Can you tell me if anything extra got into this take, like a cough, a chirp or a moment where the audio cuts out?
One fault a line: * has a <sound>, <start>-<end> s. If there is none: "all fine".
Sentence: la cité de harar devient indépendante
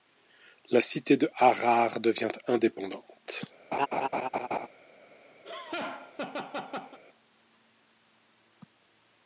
* has a laugh, 3.7-4.7 s
* has a laugh, 5.4-7.0 s